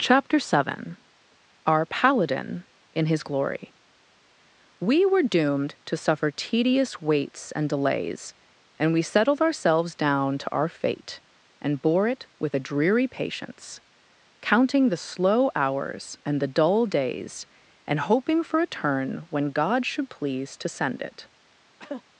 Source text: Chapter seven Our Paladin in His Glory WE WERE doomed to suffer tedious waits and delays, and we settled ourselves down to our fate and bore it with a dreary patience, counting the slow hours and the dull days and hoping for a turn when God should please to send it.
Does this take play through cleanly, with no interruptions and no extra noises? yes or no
no